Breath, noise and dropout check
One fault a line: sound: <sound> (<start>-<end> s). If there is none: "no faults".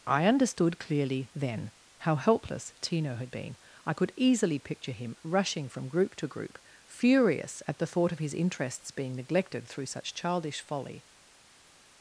no faults